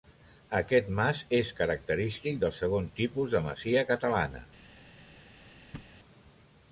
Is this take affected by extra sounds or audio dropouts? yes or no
yes